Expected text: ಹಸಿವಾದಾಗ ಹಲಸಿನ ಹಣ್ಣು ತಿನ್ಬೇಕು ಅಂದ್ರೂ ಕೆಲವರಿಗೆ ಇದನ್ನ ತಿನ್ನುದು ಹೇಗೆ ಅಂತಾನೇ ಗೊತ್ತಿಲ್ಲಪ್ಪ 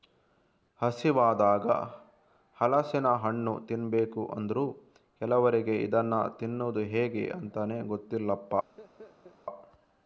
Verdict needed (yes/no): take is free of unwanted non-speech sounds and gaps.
no